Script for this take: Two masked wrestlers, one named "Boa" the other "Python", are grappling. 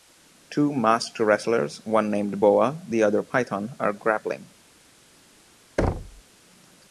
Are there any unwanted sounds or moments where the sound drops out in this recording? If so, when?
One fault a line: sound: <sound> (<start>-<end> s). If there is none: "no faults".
sound: thud (5.8-6.2 s)